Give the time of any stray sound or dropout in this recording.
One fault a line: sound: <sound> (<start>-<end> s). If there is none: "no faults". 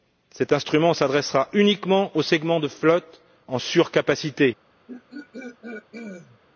sound: throat clearing (4.9-6.4 s)